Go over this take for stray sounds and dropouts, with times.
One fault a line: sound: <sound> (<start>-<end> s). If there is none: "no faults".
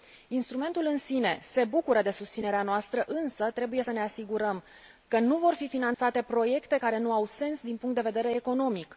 sound: dropout (5.9-6.0 s)